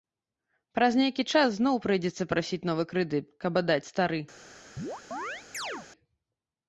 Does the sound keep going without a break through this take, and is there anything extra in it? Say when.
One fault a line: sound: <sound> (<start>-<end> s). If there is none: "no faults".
sound: chirp (4.8-5.9 s)